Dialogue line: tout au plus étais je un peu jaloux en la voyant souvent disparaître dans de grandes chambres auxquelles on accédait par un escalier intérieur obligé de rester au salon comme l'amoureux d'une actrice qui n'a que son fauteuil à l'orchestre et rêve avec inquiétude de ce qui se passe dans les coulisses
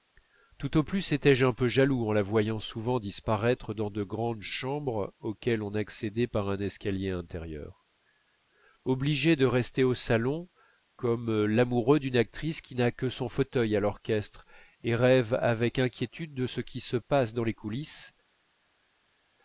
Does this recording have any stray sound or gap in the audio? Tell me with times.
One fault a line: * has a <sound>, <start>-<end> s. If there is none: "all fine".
all fine